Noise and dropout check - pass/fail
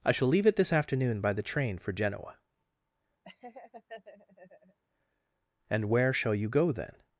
fail